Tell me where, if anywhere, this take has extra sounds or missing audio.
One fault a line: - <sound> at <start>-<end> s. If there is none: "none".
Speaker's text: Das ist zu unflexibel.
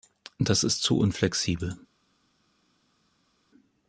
none